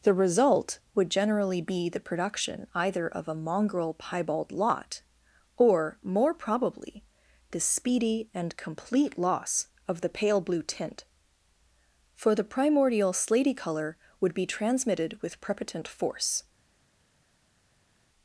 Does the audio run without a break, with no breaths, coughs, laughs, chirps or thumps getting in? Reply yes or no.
yes